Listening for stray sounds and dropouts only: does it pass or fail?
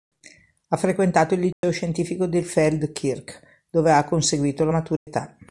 fail